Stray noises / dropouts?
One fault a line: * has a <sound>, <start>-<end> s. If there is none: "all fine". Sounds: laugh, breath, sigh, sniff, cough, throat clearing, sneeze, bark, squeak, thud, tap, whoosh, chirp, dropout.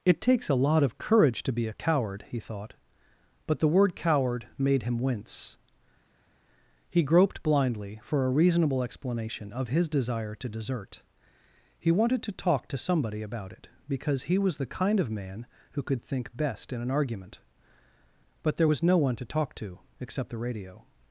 all fine